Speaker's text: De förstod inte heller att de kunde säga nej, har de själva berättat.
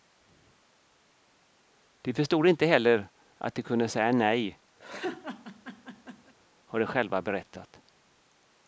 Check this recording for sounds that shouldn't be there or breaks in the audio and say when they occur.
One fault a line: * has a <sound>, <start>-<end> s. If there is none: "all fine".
* has a laugh, 4.8-6.3 s